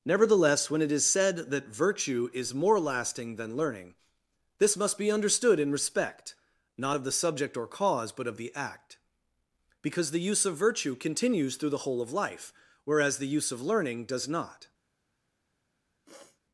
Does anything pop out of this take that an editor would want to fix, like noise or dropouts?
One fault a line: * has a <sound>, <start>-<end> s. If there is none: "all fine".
* has a sniff, 16.1-16.4 s